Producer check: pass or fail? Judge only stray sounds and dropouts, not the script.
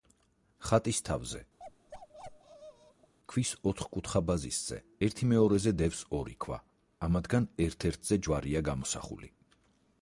fail